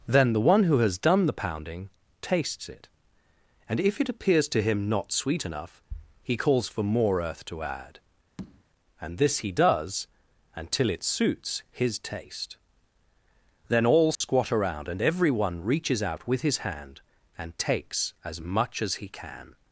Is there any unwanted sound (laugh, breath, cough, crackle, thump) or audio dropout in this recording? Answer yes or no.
yes